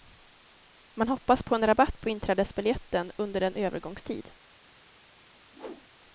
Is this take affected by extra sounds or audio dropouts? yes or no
yes